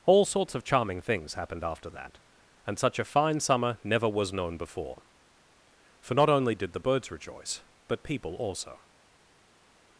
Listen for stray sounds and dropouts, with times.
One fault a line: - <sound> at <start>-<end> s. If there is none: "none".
none